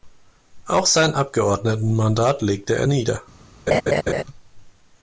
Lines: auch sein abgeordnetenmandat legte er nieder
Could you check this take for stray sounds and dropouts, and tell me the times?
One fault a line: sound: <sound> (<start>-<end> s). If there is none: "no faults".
sound: laugh (3.7-4.2 s)